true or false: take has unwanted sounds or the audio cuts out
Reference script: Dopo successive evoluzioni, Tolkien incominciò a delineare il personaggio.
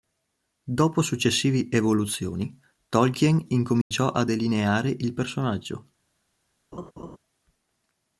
true